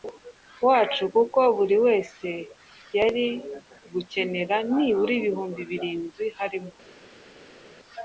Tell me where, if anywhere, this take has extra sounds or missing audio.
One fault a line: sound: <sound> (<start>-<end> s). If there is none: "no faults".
no faults